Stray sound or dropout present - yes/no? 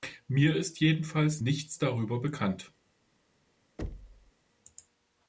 yes